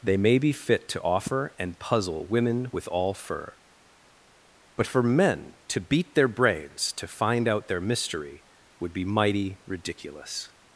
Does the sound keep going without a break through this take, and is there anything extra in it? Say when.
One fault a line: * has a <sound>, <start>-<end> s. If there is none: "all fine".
all fine